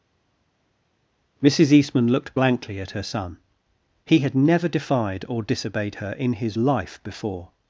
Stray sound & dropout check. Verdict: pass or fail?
pass